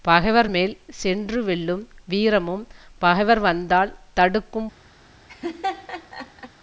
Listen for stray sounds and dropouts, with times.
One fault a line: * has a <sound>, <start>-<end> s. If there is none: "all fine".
* has a laugh, 5.3-6.5 s